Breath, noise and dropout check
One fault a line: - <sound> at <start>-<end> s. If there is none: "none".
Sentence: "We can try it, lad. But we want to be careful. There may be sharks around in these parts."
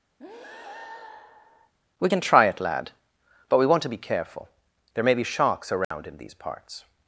- breath at 0.2-1.7 s
- dropout at 5.8-5.9 s